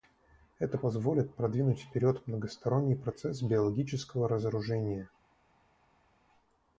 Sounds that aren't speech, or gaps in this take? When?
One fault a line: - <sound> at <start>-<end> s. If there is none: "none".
none